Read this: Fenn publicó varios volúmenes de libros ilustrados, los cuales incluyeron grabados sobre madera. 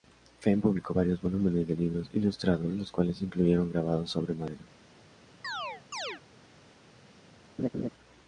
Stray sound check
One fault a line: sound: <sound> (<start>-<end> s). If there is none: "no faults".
sound: chirp (5.4-6.2 s)
sound: laugh (7.6-7.9 s)